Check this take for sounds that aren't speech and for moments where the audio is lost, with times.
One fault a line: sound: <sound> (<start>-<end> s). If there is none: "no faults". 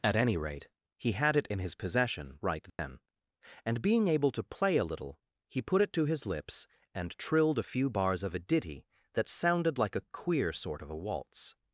sound: dropout (2.7-2.8 s)